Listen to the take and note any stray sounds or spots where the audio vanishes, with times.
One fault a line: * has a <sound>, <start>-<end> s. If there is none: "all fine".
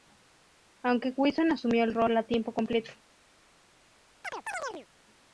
* has a chirp, 4.2-4.9 s